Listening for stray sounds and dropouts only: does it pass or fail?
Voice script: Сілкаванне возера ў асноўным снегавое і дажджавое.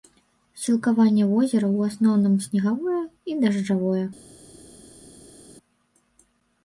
pass